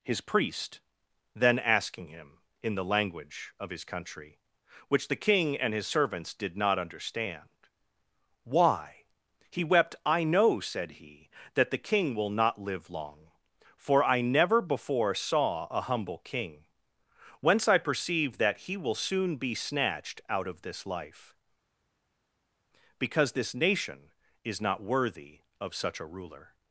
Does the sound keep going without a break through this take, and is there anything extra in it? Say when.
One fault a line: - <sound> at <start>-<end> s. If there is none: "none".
none